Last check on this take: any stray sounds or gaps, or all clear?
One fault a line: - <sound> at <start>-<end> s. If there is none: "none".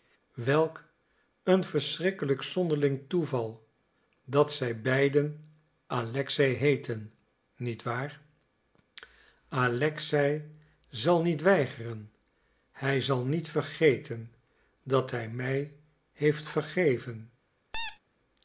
- squeak at 17.7-18.0 s